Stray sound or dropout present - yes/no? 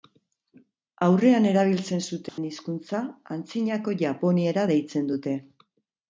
yes